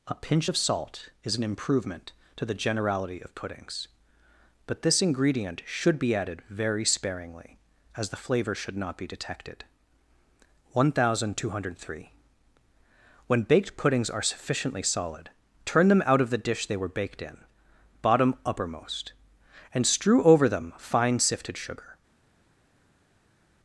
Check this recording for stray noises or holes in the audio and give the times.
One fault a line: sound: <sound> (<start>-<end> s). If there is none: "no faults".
no faults